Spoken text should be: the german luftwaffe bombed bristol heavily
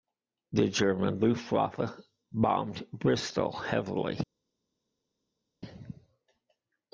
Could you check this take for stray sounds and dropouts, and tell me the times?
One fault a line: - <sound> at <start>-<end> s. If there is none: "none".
none